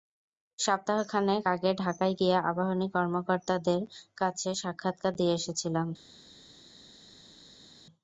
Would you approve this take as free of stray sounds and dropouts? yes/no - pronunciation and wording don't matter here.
yes